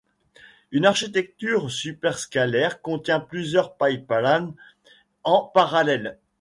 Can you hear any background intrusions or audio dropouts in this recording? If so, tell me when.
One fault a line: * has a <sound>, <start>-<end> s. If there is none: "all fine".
all fine